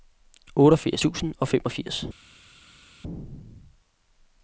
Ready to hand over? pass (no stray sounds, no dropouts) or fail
pass